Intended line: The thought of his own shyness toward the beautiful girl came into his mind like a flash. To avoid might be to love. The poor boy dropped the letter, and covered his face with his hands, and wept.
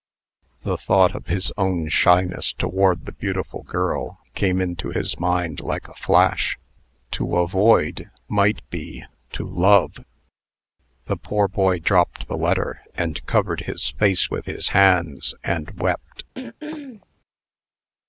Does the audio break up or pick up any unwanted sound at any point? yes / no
yes